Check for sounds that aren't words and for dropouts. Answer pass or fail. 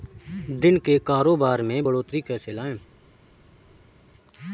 pass